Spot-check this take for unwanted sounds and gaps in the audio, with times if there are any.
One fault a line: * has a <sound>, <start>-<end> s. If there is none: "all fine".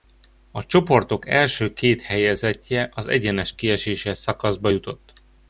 all fine